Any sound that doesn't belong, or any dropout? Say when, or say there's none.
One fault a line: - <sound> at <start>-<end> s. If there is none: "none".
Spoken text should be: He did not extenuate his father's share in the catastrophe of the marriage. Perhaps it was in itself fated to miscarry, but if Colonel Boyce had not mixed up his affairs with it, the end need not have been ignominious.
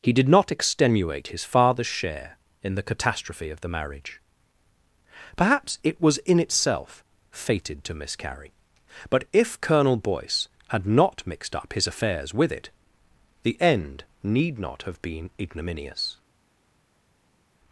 none